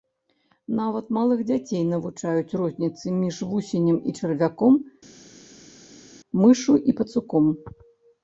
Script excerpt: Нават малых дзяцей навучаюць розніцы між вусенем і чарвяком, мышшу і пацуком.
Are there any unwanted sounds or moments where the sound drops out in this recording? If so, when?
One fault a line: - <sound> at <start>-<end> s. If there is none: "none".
none